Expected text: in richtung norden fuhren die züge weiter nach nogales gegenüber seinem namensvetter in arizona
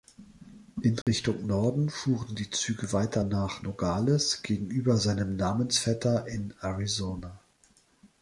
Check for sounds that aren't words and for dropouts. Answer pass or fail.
fail